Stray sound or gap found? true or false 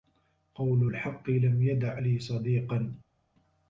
false